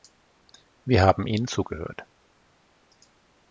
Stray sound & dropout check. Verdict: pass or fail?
pass